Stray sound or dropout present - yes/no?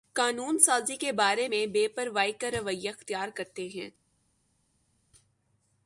no